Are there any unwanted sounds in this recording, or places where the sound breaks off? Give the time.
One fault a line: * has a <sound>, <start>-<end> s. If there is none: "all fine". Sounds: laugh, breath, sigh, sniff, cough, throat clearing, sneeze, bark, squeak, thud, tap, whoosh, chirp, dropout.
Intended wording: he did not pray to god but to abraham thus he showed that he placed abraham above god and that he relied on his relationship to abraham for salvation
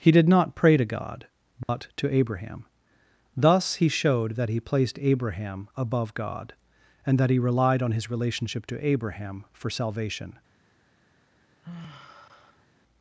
* has a dropout, 1.6-1.7 s
* has a sigh, 11.6-12.7 s